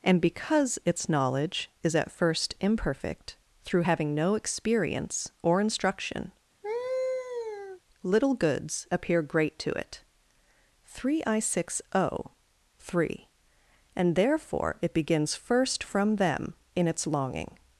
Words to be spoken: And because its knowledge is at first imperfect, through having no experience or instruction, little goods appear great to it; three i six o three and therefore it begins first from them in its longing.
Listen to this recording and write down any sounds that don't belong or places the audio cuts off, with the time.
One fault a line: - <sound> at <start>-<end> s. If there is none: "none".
- laugh at 6.6-7.8 s